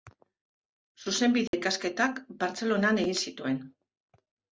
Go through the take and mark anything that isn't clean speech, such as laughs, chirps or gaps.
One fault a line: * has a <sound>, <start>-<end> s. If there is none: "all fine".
* has a dropout, 1.5-1.5 s